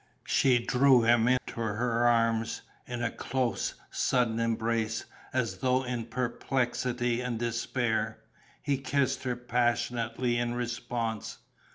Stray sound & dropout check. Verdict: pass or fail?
fail